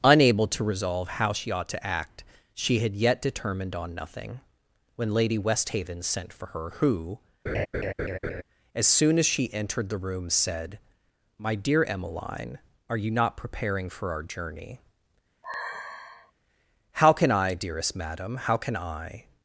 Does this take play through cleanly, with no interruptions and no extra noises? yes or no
no